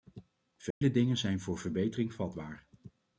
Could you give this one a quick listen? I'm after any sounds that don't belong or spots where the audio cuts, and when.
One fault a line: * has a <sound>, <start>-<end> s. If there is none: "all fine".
* has a dropout, 0.7-0.8 s